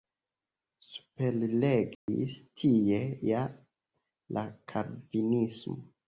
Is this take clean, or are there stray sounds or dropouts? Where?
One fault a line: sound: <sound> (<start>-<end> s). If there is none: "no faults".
sound: dropout (1.9-2.1 s)